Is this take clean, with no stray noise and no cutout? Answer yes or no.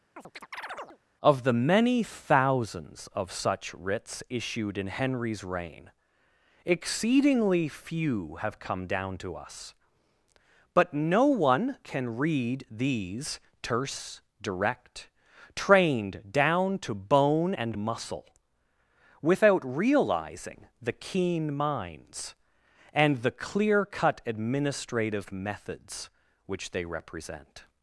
no